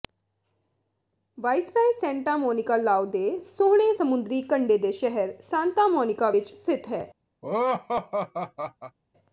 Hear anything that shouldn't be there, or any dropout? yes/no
yes